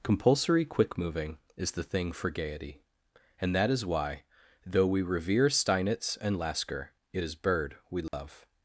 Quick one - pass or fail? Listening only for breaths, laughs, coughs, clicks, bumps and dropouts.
fail